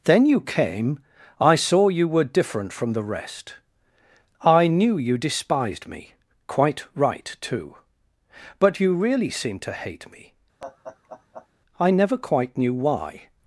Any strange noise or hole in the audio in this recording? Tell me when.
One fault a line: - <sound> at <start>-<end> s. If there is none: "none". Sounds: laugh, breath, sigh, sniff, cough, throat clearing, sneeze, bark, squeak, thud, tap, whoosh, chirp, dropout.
- laugh at 10.6-11.5 s